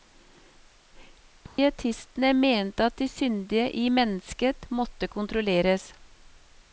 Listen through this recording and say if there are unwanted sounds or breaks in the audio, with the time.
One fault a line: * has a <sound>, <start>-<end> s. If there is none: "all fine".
* has a dropout, 1.5-1.6 s